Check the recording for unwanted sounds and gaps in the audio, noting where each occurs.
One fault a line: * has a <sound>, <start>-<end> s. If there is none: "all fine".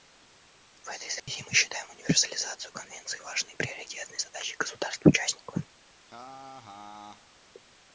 * has a dropout, 1.2-1.3 s
* has a laugh, 6.0-7.3 s